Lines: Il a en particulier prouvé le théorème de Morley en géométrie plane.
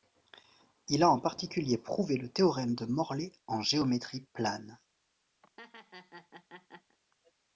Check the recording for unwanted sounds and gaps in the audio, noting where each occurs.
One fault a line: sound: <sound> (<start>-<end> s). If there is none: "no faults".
sound: laugh (5.4-7.0 s)